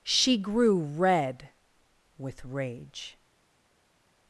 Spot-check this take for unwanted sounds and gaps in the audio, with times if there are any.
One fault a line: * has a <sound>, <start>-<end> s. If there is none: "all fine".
all fine